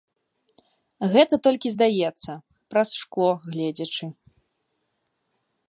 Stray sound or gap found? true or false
false